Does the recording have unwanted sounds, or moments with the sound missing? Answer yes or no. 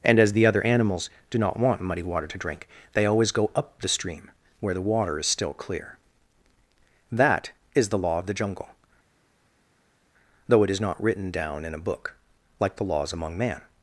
no